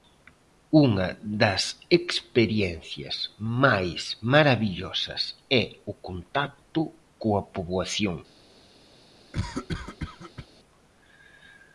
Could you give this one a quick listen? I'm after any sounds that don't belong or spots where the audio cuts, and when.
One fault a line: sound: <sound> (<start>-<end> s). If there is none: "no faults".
sound: cough (9.3-10.5 s)